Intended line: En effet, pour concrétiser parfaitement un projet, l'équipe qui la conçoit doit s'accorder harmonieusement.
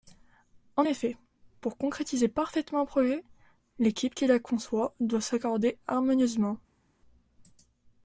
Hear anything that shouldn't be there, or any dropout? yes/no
no